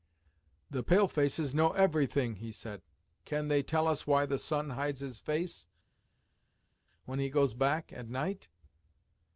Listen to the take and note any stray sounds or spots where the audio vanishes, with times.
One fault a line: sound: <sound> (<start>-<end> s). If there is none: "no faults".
no faults